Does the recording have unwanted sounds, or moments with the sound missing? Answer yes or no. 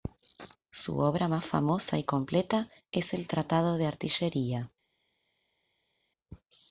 no